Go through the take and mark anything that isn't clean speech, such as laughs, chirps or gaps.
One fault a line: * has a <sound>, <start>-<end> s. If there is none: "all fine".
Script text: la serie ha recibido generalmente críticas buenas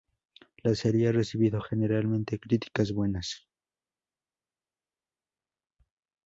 all fine